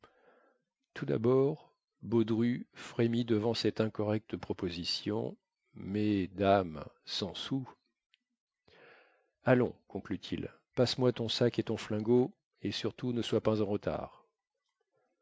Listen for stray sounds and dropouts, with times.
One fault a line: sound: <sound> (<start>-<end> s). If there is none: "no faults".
no faults